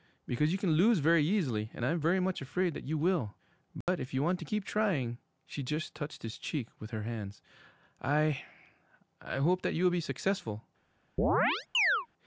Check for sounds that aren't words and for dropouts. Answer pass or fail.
fail